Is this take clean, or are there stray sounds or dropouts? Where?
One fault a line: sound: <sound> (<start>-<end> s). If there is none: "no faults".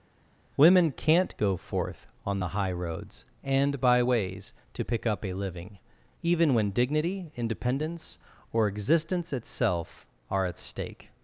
no faults